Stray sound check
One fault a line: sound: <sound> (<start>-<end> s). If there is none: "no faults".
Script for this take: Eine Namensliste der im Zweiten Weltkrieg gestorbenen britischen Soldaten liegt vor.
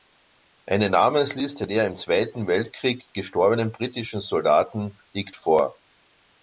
no faults